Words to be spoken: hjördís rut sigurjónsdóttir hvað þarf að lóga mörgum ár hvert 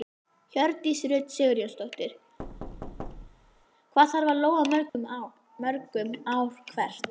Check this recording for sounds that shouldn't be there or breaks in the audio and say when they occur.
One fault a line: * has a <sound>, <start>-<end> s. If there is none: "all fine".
* has a thud, 2.4-3.7 s
* has a dropout, 4.9-4.9 s